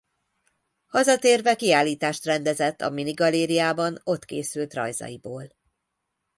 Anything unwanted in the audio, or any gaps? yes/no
no